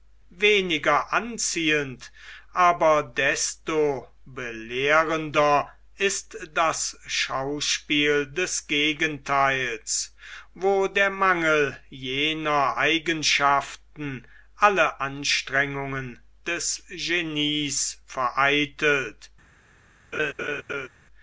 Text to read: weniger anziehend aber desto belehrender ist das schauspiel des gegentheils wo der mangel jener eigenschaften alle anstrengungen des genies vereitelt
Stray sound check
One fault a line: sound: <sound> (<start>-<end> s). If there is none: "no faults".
sound: laugh (20.1-20.9 s)